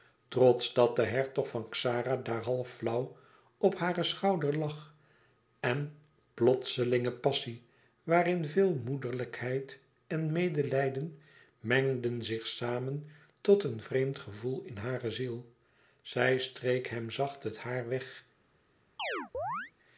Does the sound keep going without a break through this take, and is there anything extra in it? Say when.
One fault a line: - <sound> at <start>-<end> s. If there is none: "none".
- chirp at 19.0-19.7 s